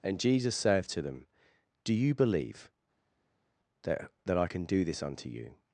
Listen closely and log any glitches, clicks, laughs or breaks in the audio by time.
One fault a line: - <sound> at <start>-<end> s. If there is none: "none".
none